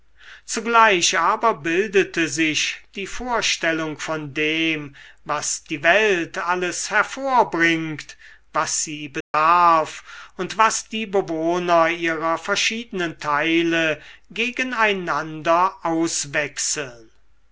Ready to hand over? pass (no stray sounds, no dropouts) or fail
fail